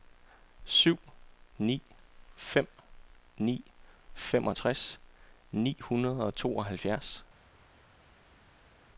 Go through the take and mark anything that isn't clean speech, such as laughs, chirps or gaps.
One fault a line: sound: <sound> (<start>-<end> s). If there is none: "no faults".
no faults